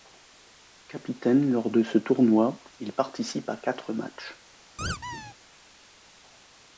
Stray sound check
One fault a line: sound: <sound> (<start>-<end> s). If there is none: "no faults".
sound: squeak (4.8-5.3 s)